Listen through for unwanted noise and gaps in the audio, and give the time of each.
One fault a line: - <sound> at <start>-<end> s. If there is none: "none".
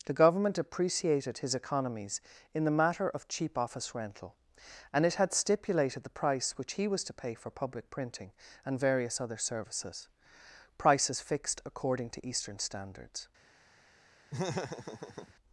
- laugh at 14.3-15.3 s